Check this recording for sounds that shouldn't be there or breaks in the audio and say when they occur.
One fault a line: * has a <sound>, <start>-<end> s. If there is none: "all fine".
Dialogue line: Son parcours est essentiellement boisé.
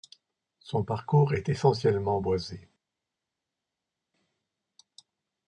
all fine